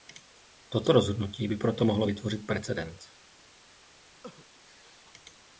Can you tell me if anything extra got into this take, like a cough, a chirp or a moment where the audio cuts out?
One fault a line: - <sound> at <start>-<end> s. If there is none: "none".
- cough at 4.2-4.5 s